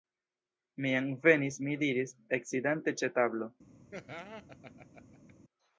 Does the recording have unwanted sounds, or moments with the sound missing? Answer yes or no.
yes